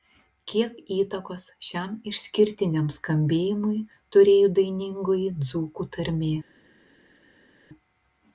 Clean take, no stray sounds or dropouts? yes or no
yes